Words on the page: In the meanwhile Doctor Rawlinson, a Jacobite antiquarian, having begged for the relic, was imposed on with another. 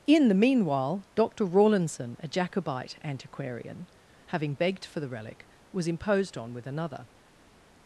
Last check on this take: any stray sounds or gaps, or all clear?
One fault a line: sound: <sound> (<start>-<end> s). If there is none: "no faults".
no faults